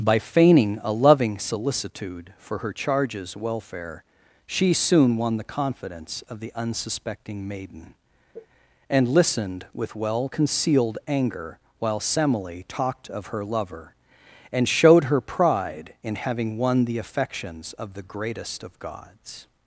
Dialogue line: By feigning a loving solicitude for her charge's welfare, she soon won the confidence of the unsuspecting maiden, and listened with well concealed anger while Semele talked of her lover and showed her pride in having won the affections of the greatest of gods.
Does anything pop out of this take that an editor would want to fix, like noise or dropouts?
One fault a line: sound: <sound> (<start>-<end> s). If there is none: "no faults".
sound: sneeze (8.3-8.5 s)